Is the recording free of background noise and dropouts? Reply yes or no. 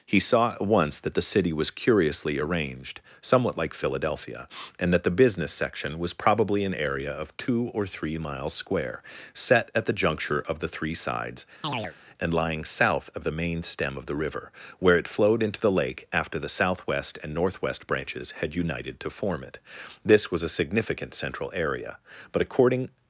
no